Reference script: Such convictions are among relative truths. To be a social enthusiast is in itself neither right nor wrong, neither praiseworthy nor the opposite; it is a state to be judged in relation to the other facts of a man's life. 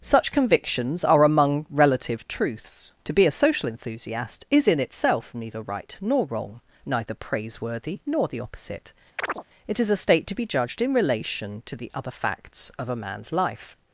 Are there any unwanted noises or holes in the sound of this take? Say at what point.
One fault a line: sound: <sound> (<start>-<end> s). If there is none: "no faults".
sound: chirp (9.2-9.4 s)